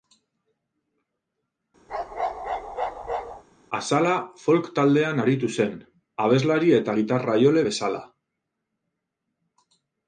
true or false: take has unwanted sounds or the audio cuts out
true